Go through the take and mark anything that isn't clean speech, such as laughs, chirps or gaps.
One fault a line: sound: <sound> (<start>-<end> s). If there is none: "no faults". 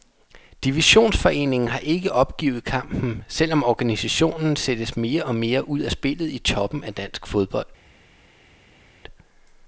no faults